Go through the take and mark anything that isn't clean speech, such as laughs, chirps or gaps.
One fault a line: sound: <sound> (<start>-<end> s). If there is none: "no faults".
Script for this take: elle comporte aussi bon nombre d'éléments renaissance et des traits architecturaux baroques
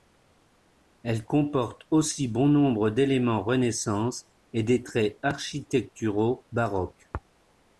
no faults